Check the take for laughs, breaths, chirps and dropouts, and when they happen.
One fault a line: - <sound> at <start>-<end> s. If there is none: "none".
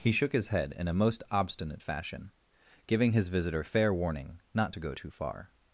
none